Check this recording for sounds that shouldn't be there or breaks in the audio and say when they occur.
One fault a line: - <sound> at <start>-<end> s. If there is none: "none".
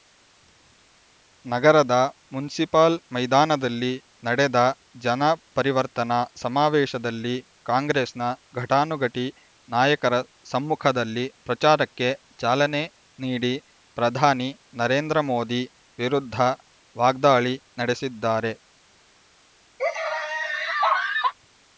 - laugh at 19.8-21.3 s